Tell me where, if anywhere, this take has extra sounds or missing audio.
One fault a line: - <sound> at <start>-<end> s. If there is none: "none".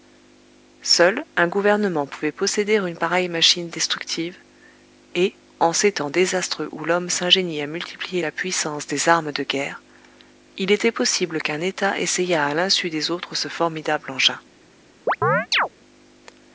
- chirp at 15.1-15.7 s